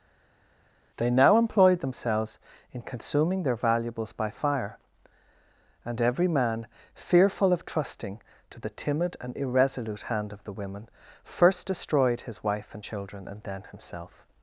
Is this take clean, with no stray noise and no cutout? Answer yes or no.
yes